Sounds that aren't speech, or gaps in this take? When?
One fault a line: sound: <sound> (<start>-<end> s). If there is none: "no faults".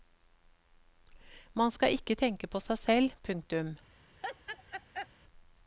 sound: laugh (4.2-5.1 s)